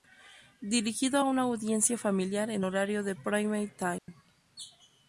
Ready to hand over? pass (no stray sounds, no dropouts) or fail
fail